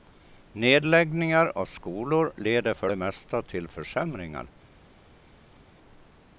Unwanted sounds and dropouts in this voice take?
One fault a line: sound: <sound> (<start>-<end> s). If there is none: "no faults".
no faults